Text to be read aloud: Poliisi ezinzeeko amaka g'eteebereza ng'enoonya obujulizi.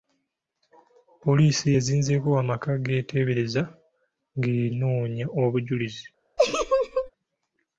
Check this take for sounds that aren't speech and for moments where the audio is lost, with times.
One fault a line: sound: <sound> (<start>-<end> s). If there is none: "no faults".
sound: laugh (6.4-7.1 s)